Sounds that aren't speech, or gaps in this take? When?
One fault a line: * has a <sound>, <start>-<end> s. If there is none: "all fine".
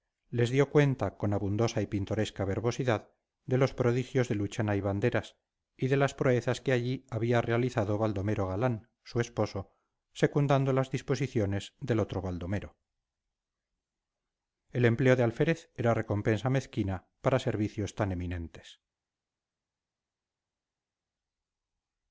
all fine